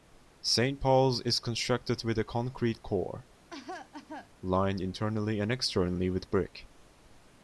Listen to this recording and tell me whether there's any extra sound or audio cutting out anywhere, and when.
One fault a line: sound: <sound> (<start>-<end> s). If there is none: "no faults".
sound: cough (3.5-4.3 s)